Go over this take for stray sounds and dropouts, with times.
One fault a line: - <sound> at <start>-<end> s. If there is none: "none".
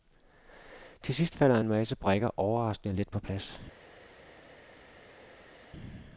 none